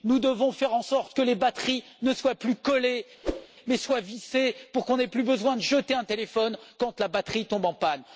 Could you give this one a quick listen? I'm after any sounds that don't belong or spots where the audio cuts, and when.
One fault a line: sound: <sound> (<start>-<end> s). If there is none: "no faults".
sound: whoosh (3.2-3.5 s)